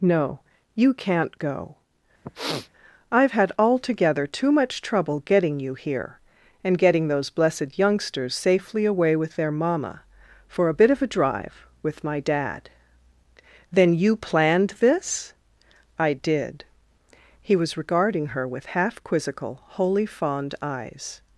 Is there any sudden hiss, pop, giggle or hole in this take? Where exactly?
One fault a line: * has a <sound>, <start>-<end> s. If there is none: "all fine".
* has a sniff, 2.2-2.7 s